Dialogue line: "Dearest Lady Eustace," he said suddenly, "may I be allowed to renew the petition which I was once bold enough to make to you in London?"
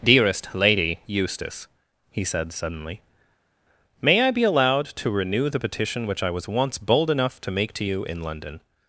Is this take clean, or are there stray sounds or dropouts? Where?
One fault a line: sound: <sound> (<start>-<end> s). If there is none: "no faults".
no faults